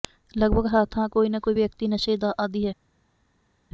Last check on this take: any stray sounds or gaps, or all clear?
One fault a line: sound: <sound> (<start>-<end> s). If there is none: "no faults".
no faults